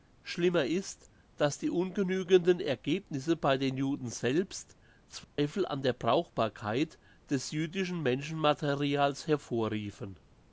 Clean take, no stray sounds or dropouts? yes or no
no